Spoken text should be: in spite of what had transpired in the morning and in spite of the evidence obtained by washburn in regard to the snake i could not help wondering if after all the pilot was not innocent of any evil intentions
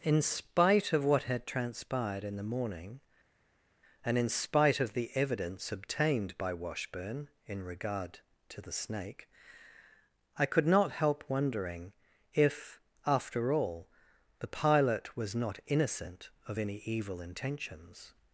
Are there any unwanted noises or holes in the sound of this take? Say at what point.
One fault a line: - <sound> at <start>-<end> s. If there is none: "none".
none